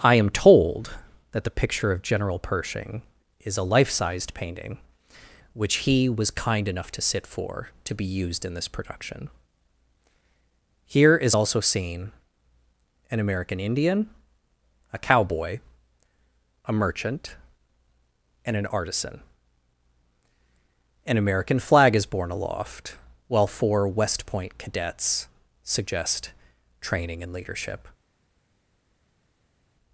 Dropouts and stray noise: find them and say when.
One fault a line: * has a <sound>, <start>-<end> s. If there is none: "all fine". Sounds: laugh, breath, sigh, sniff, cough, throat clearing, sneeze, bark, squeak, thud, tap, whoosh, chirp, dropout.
all fine